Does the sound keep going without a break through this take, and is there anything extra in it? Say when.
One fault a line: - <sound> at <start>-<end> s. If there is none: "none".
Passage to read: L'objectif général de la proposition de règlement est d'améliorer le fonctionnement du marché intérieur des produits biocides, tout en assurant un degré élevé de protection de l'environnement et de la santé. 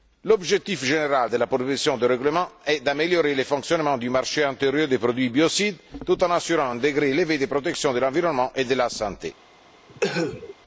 - cough at 9.9-10.6 s